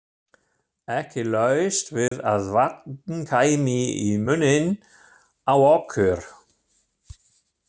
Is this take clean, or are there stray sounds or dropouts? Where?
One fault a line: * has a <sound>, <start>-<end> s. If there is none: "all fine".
* has a dropout, 2.1-2.1 s